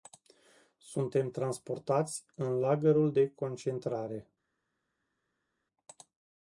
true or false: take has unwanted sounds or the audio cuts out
false